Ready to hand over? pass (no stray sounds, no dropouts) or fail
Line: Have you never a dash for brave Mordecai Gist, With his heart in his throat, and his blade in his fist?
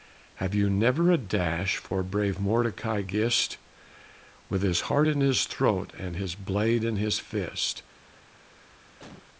fail